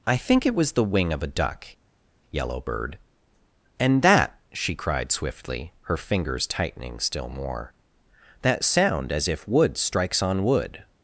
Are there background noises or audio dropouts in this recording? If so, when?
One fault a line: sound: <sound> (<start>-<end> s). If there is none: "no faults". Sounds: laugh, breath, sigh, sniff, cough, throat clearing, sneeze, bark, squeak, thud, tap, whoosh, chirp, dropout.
no faults